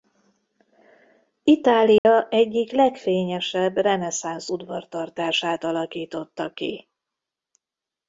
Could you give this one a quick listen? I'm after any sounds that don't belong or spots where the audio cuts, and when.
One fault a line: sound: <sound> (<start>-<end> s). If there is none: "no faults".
sound: dropout (2.0-2.0 s)